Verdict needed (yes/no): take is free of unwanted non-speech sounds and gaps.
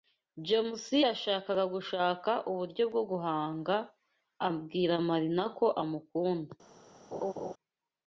no